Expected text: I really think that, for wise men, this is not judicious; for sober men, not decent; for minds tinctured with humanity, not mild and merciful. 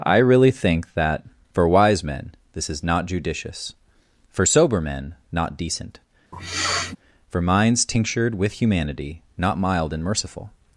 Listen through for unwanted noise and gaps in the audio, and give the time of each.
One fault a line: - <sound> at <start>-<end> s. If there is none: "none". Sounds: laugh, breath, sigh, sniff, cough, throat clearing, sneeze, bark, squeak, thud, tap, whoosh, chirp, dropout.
- sniff at 6.3-7.0 s